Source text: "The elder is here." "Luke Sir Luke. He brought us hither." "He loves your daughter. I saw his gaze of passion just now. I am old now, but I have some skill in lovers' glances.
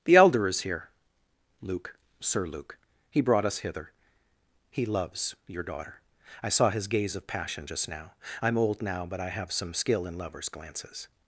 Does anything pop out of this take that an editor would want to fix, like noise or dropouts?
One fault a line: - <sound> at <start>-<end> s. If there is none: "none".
none